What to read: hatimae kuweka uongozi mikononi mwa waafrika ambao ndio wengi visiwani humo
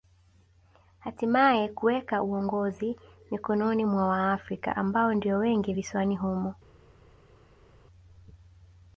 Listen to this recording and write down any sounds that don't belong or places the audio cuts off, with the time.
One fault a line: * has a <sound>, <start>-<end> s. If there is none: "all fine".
all fine